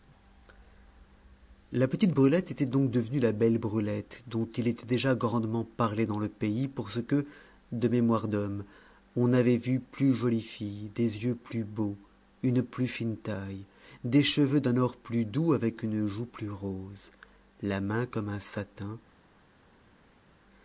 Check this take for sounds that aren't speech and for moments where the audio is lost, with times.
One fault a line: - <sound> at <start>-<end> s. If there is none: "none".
none